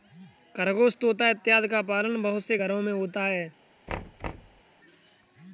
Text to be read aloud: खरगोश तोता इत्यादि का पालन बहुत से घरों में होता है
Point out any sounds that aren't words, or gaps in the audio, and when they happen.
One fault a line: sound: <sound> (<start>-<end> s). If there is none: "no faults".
sound: thud (3.9-4.6 s)